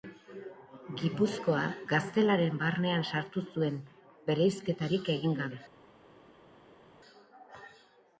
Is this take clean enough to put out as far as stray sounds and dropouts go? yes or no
yes